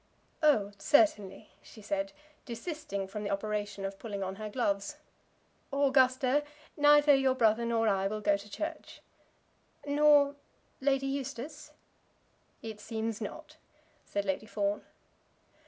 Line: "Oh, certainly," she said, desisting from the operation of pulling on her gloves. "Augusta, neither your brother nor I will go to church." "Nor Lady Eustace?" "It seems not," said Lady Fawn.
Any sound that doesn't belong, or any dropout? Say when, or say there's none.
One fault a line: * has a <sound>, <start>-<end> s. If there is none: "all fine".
all fine